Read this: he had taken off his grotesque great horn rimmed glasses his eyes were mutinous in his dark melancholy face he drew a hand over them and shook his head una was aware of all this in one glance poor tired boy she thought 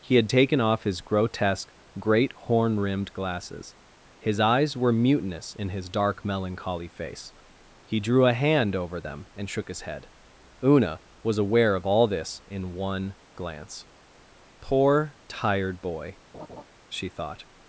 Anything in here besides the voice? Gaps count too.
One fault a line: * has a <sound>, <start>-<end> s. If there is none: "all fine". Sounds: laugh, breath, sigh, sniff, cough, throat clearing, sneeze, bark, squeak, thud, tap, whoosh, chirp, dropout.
* has a laugh, 16.3-16.6 s